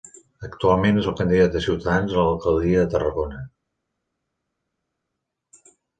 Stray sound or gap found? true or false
false